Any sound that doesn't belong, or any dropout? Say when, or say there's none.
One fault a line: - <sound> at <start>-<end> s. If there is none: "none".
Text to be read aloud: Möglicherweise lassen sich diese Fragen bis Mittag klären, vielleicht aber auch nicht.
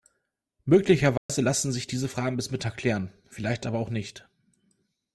- dropout at 1.2-1.3 s